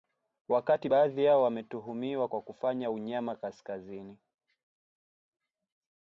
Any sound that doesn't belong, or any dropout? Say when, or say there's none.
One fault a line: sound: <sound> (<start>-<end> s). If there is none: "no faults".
no faults